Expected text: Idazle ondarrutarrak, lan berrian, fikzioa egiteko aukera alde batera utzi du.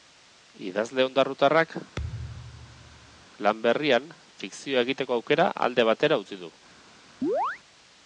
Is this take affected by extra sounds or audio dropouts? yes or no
yes